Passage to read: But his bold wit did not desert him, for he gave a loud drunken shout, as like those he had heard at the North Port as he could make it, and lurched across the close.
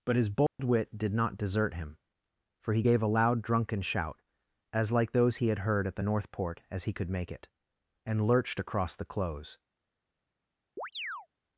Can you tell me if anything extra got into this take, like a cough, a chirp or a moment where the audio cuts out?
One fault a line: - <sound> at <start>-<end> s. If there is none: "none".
- dropout at 0.5-0.6 s
- chirp at 10.8-11.3 s